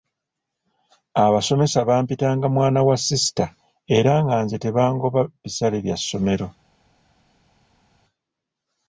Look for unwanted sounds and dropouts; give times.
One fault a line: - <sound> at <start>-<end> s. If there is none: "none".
none